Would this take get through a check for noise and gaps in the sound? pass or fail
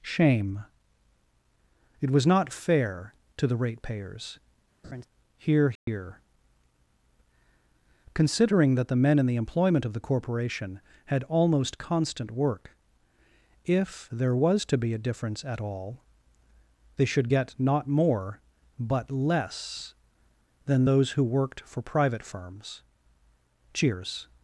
fail